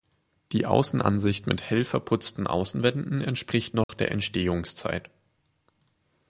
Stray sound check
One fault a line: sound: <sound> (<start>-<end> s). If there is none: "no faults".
sound: dropout (3.8-3.9 s)